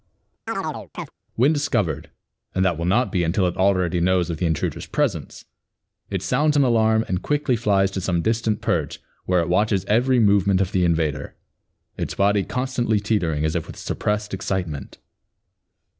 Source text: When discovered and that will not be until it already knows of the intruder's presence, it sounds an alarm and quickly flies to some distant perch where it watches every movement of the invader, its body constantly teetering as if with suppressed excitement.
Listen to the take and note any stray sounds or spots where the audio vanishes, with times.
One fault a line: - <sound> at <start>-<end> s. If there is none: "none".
- chirp at 0.5-1.1 s